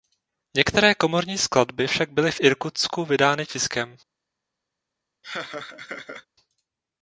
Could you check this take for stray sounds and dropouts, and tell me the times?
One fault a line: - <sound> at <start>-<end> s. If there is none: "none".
- laugh at 5.2-6.3 s